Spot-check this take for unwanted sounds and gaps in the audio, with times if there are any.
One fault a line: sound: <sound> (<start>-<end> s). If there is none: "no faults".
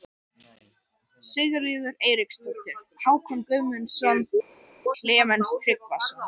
no faults